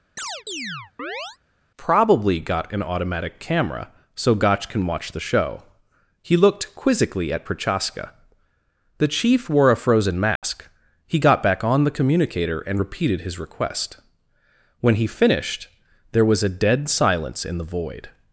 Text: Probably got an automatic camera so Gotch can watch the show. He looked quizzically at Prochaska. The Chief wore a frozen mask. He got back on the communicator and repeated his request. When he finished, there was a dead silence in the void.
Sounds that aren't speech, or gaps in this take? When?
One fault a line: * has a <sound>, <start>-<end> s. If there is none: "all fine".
* has a chirp, 0.2-1.4 s
* has a dropout, 10.4-10.4 s